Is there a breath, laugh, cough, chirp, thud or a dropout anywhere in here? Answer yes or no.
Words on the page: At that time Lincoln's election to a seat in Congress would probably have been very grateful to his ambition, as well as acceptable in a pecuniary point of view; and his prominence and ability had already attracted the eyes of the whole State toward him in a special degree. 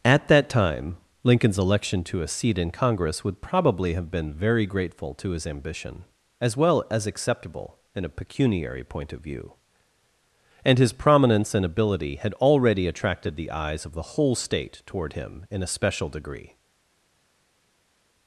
no